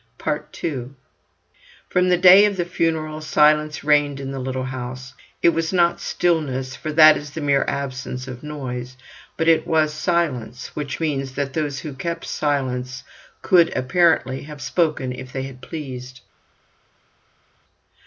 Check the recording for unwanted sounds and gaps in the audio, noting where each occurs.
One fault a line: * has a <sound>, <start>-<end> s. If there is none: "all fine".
all fine